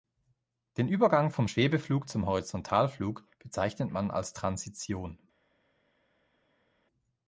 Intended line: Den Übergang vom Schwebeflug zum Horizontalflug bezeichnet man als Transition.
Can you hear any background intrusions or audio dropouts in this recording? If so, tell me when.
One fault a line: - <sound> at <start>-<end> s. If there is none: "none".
none